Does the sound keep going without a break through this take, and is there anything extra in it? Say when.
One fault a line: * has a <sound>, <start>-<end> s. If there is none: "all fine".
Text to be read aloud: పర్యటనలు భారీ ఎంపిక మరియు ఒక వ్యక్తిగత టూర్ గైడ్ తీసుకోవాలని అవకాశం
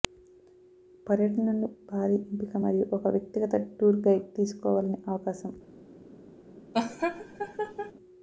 * has a laugh, 6.7-7.9 s